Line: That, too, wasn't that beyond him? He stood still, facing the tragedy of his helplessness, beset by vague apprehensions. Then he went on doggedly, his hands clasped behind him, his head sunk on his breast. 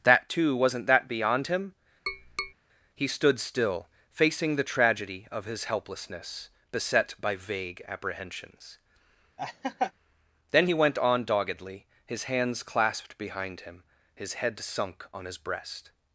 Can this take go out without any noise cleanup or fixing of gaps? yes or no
no